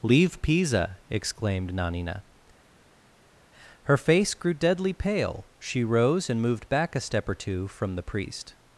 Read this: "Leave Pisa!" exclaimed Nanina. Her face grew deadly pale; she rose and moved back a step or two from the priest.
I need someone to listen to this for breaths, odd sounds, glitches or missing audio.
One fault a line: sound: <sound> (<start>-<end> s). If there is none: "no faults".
no faults